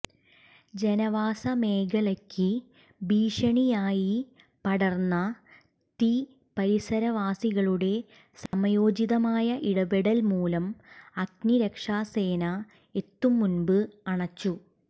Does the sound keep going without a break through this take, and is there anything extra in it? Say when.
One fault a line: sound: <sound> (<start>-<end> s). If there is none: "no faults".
sound: dropout (8.5-8.5 s)